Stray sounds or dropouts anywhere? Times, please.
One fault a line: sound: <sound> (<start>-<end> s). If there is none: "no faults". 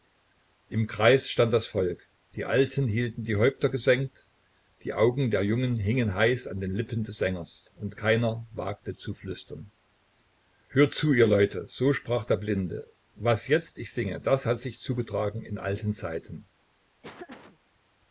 sound: laugh (17.0-17.6 s)